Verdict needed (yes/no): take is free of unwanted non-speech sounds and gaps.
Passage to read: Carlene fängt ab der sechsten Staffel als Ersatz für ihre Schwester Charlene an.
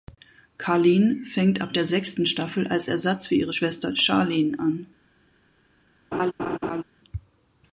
no